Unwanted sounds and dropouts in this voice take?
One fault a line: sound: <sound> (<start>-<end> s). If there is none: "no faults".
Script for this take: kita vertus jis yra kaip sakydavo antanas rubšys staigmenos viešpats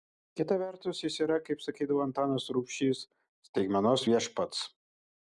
no faults